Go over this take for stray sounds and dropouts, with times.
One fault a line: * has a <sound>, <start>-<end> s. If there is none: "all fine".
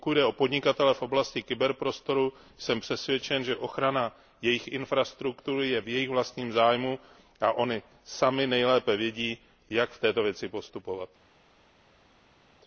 all fine